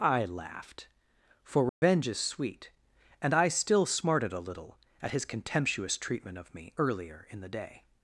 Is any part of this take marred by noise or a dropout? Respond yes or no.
yes